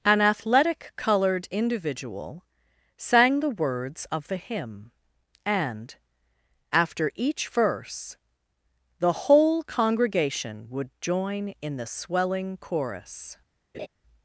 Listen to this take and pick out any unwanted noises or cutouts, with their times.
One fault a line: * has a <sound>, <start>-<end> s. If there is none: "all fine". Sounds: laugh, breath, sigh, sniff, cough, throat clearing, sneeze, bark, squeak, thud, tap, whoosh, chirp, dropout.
* has a laugh, 13.7-13.9 s